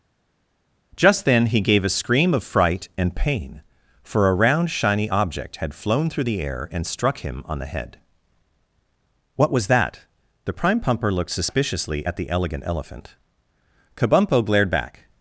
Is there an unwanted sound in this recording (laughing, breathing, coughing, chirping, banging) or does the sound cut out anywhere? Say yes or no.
no